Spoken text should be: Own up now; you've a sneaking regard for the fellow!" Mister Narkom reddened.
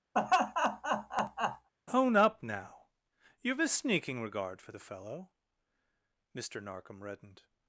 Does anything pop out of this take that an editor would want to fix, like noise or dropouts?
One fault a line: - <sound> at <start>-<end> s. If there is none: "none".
- laugh at 0.1-1.7 s